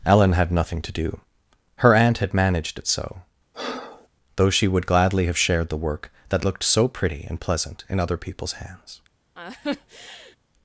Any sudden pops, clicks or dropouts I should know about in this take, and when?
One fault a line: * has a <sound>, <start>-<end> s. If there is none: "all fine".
* has a breath, 3.5-4.1 s
* has a laugh, 9.3-10.4 s